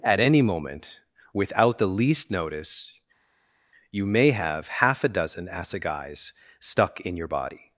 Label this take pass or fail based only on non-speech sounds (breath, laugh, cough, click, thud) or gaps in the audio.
pass